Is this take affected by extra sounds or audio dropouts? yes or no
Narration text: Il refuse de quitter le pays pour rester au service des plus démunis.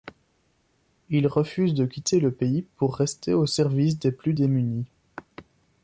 no